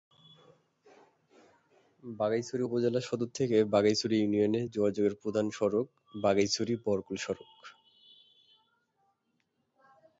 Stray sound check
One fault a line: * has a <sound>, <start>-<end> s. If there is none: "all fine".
all fine